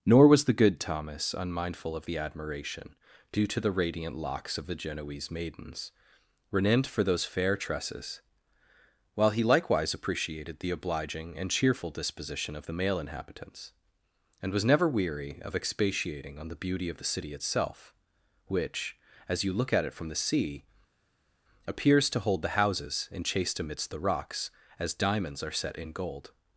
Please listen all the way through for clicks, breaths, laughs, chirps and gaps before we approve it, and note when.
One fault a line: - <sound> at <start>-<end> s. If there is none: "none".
none